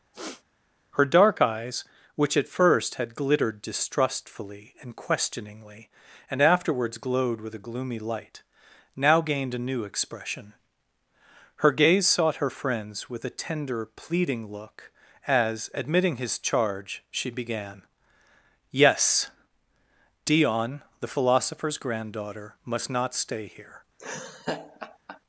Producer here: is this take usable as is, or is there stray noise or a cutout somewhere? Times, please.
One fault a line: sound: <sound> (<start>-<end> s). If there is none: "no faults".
sound: throat clearing (0.1-0.4 s)
sound: laugh (24.0-25.2 s)